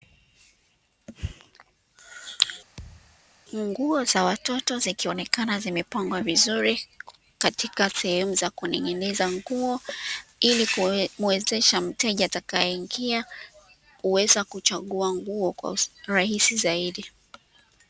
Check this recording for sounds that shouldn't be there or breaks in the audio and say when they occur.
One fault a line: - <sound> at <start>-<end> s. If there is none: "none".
- thud at 2.8-3.2 s